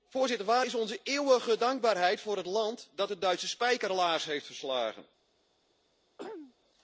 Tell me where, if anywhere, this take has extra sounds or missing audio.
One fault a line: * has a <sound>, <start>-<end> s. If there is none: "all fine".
* has a throat clearing, 6.2-6.5 s